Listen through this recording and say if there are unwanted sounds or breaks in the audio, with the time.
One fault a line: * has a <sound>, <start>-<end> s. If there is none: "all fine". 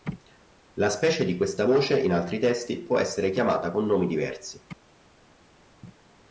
all fine